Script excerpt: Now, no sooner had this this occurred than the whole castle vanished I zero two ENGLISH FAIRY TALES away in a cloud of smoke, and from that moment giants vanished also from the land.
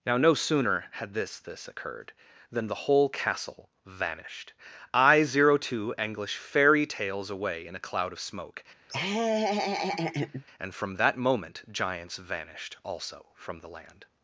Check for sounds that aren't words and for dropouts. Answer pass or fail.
fail